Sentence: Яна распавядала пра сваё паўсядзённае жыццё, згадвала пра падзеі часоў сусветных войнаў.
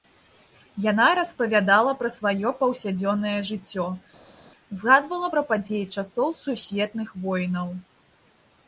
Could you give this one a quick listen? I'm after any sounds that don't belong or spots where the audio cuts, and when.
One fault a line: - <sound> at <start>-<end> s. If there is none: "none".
none